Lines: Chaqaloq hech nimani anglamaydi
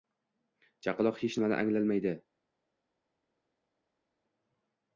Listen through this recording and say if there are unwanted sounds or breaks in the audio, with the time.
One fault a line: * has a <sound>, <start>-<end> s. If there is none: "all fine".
all fine